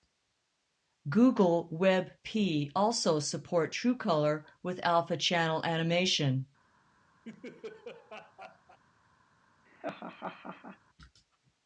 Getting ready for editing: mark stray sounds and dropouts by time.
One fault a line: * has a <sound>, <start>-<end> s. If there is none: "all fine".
* has a laugh, 7.2-8.8 s
* has a laugh, 9.7-10.8 s